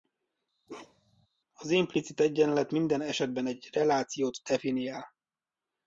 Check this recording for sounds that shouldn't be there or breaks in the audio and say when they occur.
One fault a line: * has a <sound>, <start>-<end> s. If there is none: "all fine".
* has a bark, 0.7-1.3 s